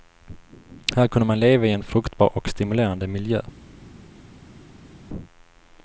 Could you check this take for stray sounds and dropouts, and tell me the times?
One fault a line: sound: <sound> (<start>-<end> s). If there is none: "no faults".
no faults